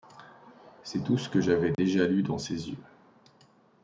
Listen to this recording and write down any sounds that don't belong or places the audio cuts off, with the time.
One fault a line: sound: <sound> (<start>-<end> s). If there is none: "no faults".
sound: dropout (1.7-1.8 s)